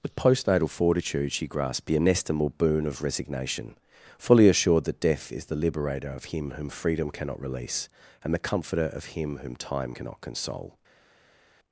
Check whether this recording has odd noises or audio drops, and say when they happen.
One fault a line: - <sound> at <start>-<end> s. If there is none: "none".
none